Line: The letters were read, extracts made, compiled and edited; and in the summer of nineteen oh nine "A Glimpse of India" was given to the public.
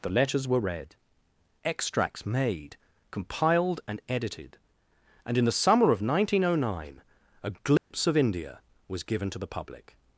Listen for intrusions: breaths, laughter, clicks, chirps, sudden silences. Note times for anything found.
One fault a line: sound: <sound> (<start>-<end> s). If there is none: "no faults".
sound: dropout (7.8-7.9 s)